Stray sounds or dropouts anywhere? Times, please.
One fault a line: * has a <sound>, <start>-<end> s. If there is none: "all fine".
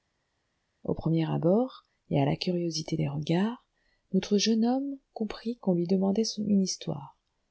all fine